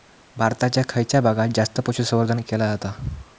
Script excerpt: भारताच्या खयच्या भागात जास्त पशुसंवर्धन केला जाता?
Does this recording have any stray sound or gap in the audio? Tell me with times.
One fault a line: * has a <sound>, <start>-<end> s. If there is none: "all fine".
all fine